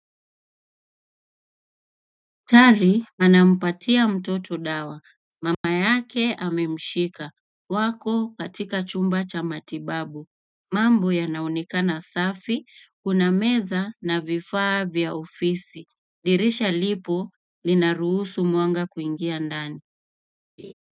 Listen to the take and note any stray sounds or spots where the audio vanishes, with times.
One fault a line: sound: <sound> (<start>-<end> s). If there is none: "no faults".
sound: dropout (5.5-5.6 s)
sound: laugh (20.6-20.7 s)